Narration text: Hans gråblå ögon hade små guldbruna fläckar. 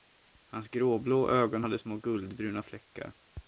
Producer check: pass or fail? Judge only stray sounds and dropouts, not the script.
pass